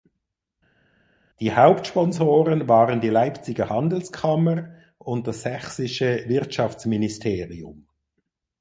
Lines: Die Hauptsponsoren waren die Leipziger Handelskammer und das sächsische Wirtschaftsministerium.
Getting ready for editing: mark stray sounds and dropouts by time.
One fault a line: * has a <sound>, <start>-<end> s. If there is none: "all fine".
all fine